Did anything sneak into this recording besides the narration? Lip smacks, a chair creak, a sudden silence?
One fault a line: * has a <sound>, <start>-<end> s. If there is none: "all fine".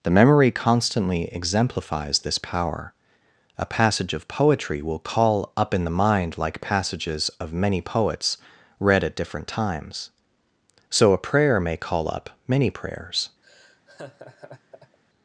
* has a laugh, 13.4-15.0 s